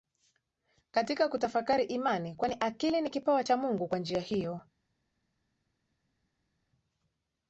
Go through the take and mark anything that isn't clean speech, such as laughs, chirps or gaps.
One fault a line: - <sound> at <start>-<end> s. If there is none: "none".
none